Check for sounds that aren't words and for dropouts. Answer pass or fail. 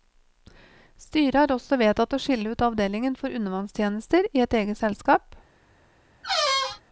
fail